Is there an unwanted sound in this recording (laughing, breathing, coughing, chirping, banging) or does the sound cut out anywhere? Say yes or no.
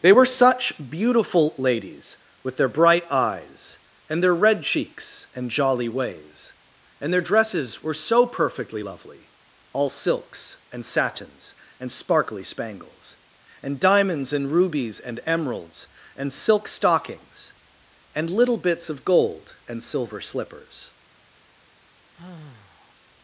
yes